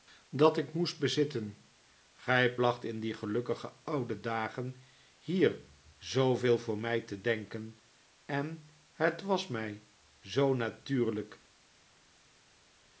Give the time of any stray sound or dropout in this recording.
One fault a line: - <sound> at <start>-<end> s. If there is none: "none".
none